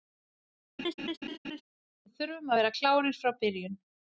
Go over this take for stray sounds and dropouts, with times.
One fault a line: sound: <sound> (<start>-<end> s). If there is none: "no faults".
sound: laugh (0.8-1.6 s)